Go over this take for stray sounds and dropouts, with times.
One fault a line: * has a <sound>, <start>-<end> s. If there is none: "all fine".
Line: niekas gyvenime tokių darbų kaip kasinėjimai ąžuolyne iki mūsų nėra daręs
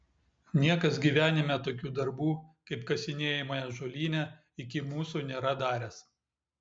all fine